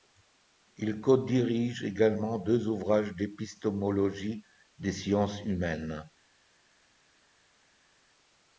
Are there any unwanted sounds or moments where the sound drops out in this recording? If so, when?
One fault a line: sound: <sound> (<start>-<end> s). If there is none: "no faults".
no faults